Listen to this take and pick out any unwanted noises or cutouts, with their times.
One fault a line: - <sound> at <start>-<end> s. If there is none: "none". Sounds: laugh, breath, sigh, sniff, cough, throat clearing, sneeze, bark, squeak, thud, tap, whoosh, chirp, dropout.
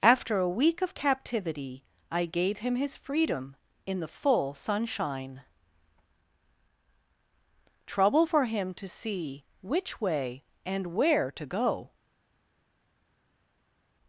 none